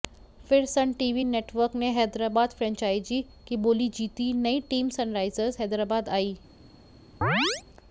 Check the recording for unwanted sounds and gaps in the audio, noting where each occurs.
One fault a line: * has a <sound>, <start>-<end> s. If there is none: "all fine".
* has a chirp, 7.2-7.6 s